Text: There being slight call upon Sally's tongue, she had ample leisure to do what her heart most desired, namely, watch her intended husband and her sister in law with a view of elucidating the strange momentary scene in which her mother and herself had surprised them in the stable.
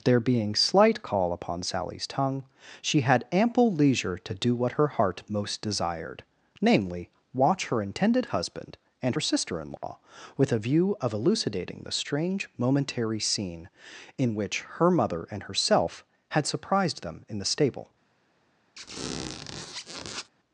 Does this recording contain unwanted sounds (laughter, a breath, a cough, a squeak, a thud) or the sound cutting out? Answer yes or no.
yes